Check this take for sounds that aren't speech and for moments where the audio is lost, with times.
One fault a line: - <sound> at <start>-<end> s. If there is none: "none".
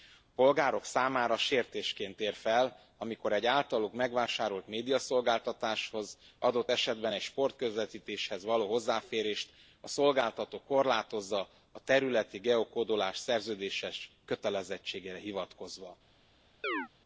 - chirp at 16.6-16.9 s